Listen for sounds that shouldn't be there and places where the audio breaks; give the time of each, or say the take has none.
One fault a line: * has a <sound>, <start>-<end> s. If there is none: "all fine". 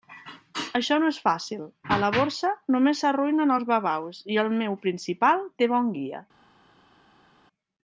all fine